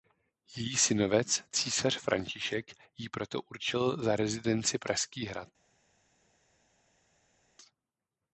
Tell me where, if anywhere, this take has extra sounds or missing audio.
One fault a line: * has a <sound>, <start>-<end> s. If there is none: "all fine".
all fine